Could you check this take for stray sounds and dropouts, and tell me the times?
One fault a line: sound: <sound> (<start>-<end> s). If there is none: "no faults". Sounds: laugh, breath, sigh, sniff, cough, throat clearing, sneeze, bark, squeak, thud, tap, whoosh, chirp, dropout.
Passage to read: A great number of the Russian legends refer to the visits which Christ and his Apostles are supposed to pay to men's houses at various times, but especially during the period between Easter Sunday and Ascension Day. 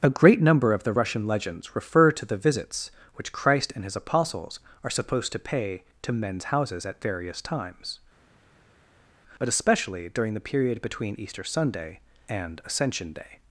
no faults